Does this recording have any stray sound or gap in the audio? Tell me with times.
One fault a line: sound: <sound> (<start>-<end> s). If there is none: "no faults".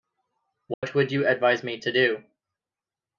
sound: dropout (0.7-0.8 s)